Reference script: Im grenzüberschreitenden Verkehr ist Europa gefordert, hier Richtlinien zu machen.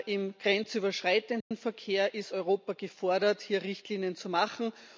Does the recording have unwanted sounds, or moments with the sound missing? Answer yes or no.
yes